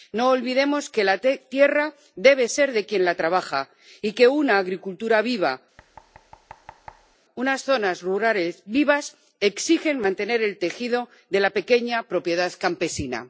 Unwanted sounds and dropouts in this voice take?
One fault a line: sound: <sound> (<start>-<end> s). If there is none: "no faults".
sound: thud (5.8-7.2 s)